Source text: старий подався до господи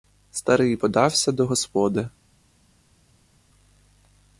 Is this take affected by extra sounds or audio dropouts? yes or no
no